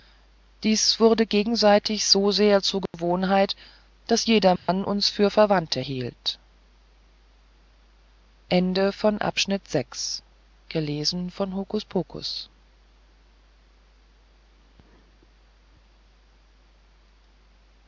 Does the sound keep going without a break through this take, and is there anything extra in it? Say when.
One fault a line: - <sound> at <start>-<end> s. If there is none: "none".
- dropout at 2.9-2.9 s
- dropout at 4.6-4.7 s